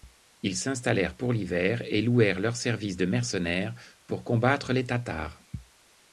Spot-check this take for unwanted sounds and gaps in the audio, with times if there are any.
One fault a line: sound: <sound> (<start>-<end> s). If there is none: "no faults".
no faults